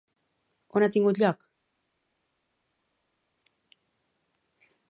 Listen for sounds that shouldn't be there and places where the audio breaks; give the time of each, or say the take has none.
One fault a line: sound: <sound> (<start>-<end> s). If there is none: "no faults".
no faults